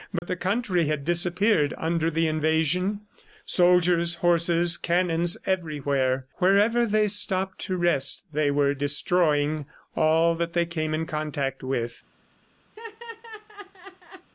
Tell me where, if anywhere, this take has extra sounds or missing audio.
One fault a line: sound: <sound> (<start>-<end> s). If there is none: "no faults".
sound: dropout (0.2-0.2 s)
sound: laugh (12.7-14.3 s)